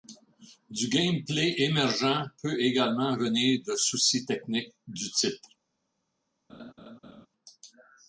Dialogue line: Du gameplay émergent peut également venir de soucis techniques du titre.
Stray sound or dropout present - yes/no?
yes